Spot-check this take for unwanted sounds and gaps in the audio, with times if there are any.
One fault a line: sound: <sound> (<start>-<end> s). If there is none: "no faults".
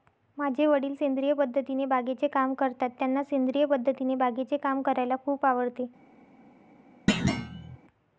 sound: thud (7.1-7.8 s)